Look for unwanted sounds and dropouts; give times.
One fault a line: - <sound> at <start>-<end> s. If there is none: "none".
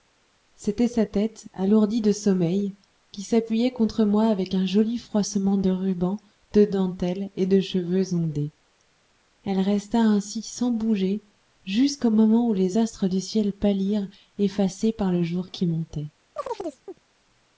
- chirp at 16.4-17.0 s